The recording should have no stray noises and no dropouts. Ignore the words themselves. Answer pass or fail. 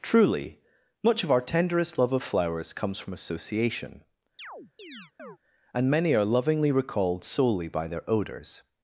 fail